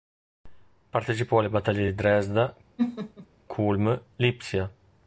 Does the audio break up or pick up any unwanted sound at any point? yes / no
yes